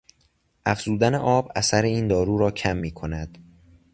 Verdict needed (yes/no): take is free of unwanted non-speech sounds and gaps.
yes